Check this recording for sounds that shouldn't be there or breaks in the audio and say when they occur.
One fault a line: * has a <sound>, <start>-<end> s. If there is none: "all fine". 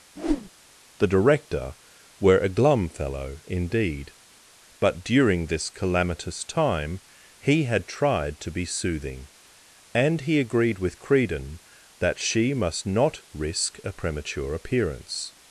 * has a whoosh, 0.2-0.5 s